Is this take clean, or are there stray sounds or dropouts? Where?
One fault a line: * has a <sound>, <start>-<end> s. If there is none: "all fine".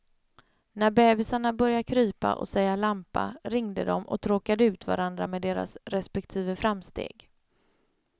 all fine